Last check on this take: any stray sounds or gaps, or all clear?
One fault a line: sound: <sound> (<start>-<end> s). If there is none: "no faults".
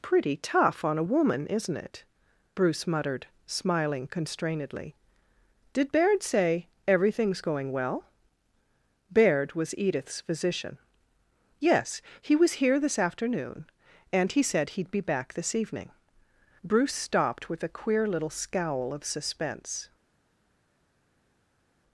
no faults